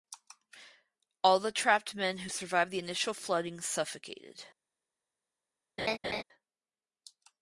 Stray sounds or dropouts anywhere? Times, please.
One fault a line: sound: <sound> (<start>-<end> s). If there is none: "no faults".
sound: laugh (5.8-6.2 s)